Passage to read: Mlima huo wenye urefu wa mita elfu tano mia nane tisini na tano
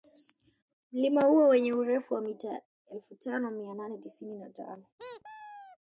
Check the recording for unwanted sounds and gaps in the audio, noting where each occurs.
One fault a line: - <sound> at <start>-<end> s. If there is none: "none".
- squeak at 5.0-5.8 s